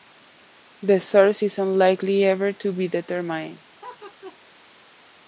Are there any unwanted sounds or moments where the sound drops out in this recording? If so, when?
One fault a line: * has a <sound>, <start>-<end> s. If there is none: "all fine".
* has a laugh, 3.8-4.4 s